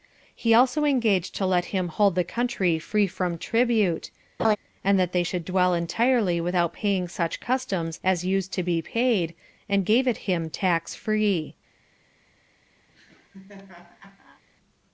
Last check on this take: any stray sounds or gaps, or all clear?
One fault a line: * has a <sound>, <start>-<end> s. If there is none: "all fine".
* has a laugh, 4.4-4.6 s
* has a laugh, 12.9-14.4 s